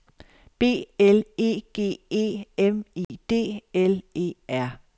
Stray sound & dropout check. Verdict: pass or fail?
fail